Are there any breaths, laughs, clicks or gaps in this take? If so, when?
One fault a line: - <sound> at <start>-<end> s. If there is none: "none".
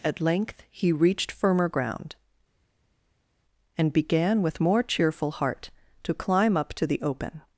none